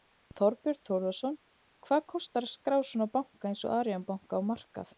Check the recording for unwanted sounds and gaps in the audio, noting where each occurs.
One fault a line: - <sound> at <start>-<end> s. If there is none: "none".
none